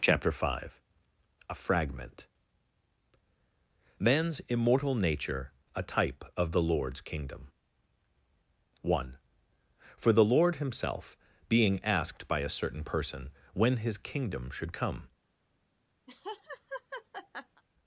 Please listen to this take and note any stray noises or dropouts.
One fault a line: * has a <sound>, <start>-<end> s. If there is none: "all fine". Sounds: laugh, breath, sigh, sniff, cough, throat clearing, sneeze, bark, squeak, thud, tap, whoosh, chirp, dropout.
* has a laugh, 16.1-17.6 s